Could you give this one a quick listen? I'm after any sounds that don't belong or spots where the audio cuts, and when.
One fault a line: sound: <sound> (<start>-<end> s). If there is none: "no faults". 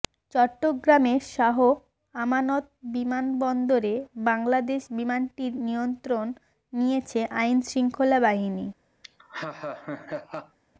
sound: laugh (9.0-10.6 s)